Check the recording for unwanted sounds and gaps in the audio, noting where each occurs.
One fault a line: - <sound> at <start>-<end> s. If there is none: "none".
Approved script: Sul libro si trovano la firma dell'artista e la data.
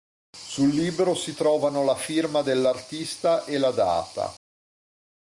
none